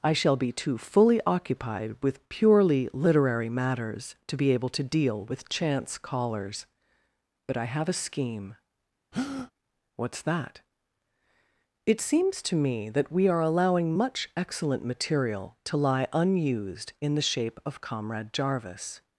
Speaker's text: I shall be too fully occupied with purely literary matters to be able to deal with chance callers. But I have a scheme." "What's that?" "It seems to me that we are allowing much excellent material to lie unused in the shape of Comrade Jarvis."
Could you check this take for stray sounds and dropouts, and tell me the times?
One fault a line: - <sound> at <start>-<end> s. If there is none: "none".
- breath at 9.1-9.5 s